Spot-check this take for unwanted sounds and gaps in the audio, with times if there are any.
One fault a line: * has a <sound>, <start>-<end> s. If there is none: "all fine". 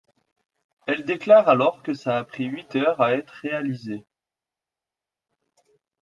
all fine